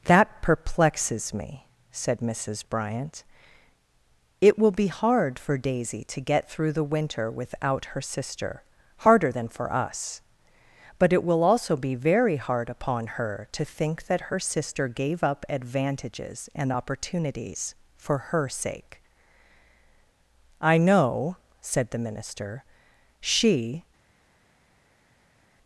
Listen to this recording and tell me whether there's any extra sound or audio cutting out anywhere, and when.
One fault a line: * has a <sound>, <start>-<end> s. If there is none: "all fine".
all fine